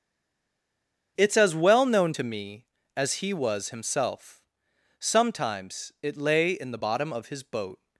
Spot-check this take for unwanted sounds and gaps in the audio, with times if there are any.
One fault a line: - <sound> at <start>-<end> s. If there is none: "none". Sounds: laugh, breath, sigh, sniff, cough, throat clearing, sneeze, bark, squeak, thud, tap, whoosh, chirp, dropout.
none